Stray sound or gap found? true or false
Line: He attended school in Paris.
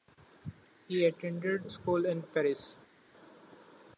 false